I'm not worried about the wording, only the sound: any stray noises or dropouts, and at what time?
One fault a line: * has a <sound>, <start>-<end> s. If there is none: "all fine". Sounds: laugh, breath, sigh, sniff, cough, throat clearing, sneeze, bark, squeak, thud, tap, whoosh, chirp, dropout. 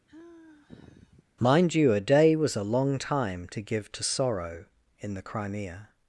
* has a sigh, 0.1-1.2 s